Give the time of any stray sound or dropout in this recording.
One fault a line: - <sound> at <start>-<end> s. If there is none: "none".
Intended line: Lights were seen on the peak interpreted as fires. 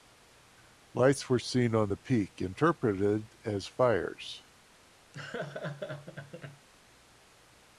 - laugh at 5.1-6.7 s